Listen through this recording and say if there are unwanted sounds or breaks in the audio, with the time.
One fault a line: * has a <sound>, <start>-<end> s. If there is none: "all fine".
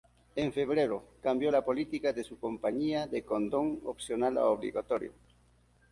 all fine